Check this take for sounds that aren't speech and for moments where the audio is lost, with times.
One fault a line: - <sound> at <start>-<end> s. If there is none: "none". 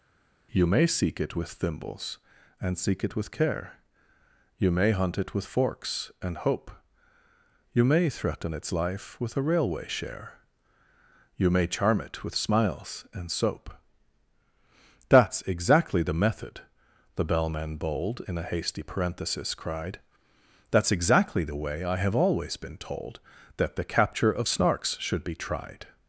none